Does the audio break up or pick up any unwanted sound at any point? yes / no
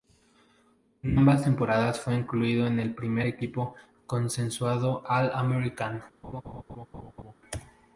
yes